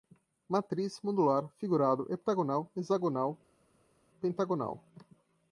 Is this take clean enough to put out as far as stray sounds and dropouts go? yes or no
yes